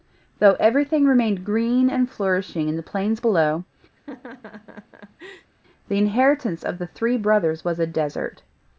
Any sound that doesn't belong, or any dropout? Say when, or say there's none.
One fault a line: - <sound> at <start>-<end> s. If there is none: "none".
- laugh at 4.0-5.5 s